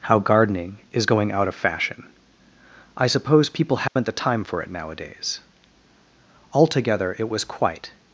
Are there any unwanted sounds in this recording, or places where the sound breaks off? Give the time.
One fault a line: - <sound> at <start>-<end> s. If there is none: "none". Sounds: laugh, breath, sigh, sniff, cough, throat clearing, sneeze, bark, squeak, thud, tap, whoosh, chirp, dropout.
- dropout at 3.9-4.0 s